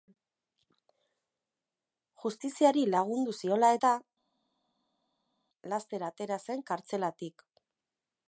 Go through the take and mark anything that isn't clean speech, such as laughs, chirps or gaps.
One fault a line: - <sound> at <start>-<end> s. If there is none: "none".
none